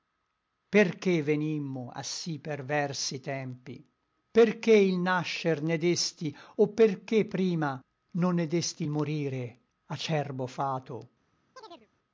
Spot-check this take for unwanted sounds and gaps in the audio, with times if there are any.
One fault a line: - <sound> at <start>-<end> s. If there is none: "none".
- chirp at 11.6-11.9 s